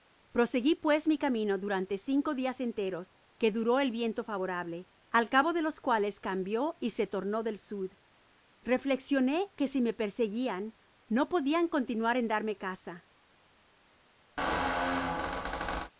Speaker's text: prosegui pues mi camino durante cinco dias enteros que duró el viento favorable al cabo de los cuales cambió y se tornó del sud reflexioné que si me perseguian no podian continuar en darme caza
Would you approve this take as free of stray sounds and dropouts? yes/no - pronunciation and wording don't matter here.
no